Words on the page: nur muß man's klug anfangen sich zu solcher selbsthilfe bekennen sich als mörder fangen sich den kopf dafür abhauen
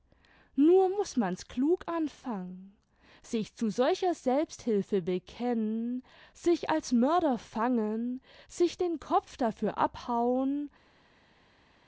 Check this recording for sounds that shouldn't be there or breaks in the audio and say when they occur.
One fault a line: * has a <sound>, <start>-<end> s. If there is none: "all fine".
all fine